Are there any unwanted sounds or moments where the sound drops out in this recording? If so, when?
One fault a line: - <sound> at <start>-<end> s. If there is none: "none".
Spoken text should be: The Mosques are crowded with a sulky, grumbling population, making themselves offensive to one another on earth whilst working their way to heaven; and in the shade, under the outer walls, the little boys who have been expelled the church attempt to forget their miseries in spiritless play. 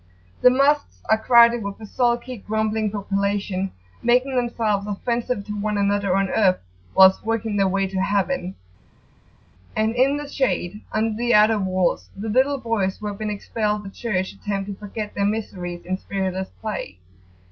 none